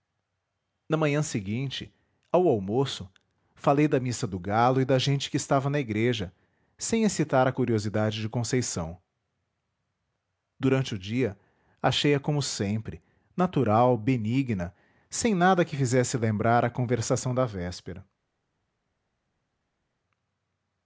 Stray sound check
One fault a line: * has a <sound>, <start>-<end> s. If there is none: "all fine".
all fine